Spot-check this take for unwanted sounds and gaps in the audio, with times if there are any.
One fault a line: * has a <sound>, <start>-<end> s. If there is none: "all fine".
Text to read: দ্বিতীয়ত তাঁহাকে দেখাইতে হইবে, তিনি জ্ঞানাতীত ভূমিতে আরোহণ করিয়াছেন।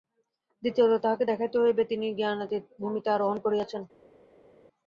all fine